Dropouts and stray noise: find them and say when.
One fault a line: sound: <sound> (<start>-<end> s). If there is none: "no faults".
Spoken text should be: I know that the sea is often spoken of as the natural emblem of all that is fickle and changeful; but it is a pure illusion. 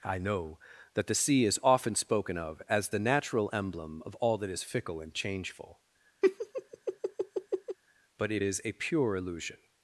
sound: laugh (6.2-7.8 s)